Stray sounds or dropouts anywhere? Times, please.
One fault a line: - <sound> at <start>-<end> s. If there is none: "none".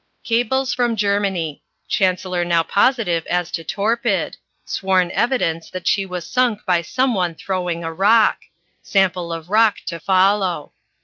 none